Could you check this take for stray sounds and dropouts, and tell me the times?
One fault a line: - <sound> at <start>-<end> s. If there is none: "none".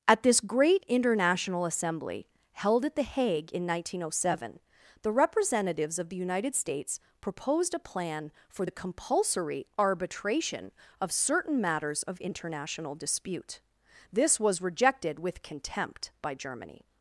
none